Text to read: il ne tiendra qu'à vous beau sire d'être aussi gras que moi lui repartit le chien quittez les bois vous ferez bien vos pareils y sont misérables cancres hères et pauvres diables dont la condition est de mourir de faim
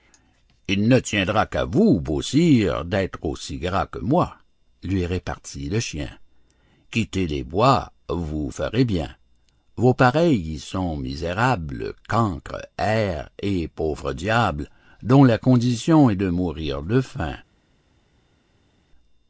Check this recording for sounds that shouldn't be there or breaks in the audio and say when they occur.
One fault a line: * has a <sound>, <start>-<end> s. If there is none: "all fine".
all fine